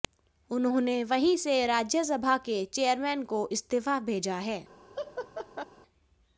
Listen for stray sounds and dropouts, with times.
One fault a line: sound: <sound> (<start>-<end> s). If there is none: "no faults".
sound: laugh (4.9-5.7 s)